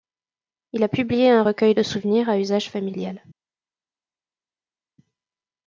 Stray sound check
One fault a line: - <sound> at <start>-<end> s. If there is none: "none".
none